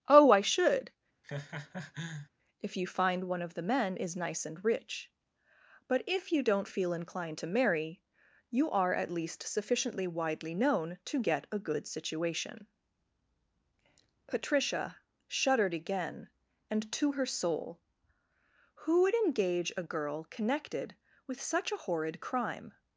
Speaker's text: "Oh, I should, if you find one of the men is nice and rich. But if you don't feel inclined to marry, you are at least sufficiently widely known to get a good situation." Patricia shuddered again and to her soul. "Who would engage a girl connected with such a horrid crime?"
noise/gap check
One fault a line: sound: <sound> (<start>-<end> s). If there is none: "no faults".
sound: laugh (1.2-2.3 s)